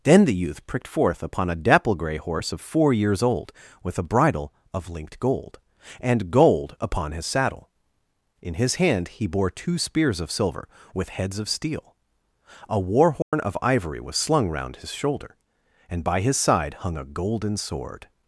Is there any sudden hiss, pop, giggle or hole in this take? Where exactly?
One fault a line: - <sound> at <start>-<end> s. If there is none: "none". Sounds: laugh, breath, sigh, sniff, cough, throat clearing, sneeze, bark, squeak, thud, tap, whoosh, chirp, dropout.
- dropout at 13.2-13.3 s